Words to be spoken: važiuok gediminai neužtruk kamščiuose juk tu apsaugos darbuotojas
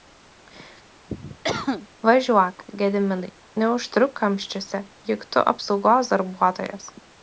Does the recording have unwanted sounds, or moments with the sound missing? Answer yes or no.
yes